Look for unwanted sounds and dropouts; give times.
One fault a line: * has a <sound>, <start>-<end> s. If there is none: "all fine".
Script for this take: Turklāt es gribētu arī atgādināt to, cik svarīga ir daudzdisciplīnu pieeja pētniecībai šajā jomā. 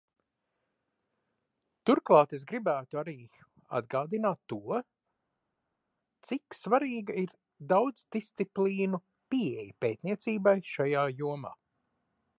all fine